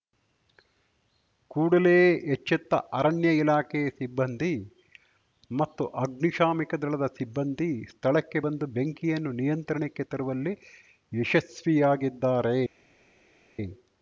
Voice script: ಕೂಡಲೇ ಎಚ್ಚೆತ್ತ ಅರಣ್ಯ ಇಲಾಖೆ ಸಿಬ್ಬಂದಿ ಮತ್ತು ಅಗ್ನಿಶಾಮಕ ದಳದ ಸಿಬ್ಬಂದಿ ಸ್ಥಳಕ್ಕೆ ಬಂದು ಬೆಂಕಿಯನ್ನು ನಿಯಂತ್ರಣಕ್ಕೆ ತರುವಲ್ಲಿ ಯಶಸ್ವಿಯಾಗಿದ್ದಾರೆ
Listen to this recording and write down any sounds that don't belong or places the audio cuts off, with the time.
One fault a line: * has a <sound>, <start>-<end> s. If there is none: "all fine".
all fine